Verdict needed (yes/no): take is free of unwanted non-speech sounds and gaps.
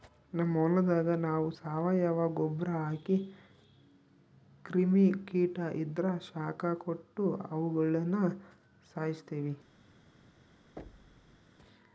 no